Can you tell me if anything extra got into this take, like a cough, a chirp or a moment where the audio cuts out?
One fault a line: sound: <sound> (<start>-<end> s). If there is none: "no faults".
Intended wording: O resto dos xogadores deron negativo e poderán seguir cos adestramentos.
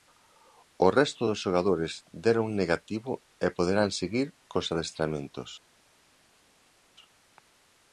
no faults